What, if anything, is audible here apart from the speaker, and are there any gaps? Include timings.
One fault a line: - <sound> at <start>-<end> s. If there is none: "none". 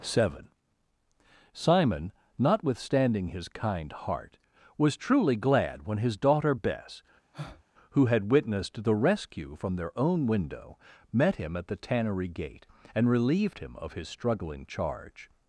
- breath at 7.3-7.6 s